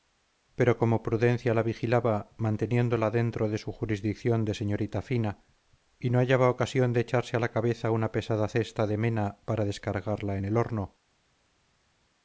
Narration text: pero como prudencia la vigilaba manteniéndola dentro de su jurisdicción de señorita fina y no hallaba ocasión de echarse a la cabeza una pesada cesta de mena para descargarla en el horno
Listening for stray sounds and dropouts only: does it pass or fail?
pass